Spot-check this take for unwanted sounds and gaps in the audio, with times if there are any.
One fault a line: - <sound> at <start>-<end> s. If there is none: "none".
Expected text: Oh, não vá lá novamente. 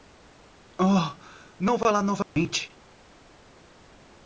- dropout at 2.2-2.4 s